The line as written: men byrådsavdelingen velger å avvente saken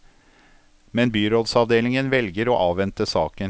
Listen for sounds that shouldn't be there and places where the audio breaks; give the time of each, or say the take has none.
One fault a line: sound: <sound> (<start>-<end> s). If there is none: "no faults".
no faults